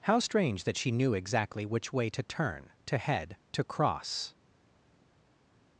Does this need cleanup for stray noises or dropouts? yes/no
no